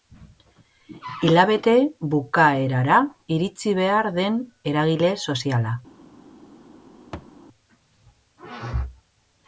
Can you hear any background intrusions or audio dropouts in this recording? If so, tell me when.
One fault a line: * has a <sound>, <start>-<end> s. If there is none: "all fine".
* has a thud, 7.1-7.3 s